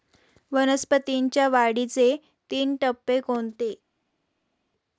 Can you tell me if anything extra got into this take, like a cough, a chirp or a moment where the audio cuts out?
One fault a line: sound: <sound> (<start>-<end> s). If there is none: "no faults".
no faults